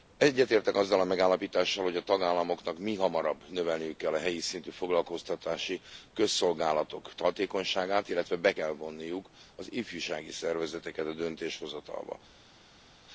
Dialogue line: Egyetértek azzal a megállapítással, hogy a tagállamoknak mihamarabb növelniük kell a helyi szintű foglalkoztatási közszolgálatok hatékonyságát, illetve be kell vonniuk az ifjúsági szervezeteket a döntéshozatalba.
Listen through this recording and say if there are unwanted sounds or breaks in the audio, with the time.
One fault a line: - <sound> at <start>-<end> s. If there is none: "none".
none